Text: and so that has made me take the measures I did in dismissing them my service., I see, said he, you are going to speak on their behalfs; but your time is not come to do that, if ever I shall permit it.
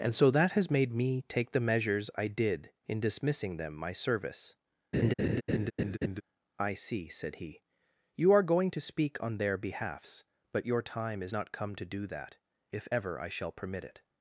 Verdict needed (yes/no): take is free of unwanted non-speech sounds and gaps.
no